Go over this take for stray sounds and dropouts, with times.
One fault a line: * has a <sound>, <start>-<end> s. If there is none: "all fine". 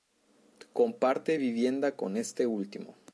all fine